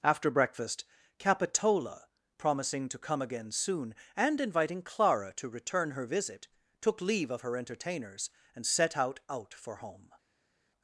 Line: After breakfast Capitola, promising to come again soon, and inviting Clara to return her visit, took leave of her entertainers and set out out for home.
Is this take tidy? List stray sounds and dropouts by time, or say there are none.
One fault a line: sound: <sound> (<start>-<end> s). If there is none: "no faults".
no faults